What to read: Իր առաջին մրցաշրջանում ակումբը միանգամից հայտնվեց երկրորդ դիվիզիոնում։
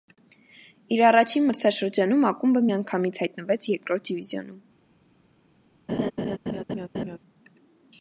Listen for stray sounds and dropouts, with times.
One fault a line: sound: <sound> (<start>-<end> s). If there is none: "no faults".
sound: laugh (5.9-7.2 s)